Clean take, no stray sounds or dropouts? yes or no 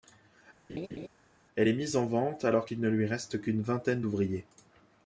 no